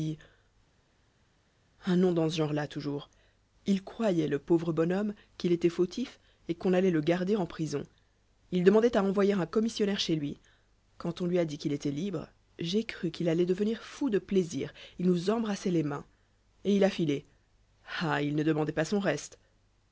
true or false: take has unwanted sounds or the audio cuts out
false